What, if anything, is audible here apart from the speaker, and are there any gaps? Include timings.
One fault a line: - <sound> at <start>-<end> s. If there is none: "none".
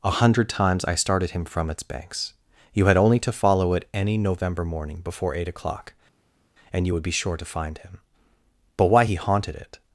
none